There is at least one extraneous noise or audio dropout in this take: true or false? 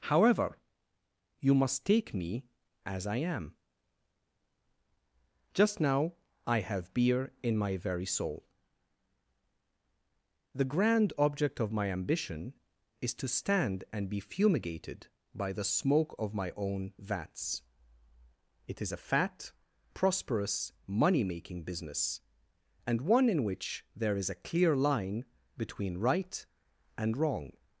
false